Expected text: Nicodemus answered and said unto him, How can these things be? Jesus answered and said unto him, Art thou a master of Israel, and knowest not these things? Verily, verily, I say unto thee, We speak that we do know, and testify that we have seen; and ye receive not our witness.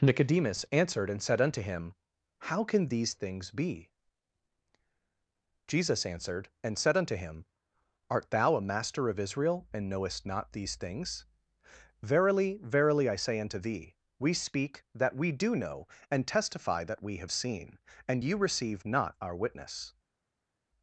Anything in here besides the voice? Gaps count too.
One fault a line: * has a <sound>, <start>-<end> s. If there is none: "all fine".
all fine